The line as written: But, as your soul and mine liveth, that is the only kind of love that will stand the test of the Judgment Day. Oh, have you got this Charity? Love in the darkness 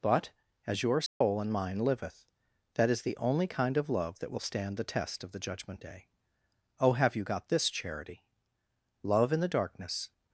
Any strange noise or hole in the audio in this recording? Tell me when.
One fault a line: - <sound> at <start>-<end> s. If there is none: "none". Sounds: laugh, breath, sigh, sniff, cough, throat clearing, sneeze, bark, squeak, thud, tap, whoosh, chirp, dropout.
- dropout at 1.1-1.2 s